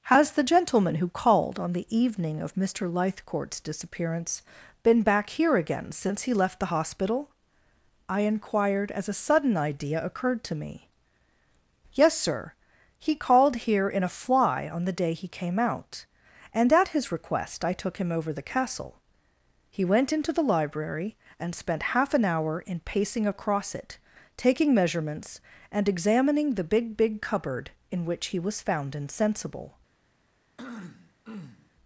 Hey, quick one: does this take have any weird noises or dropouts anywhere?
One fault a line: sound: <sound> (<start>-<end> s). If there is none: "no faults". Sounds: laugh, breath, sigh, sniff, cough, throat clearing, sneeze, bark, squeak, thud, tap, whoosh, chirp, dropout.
sound: throat clearing (30.6-31.7 s)